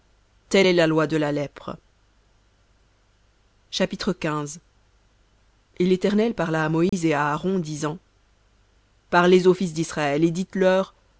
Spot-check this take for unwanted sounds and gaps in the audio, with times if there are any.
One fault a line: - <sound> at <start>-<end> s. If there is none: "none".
- dropout at 6.9-6.9 s